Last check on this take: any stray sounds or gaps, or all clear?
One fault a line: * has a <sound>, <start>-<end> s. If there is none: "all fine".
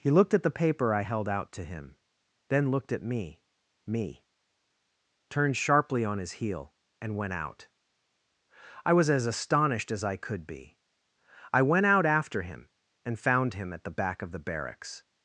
all fine